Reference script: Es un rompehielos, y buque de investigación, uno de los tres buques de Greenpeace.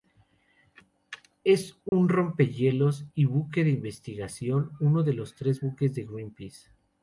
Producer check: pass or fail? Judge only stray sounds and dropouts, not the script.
fail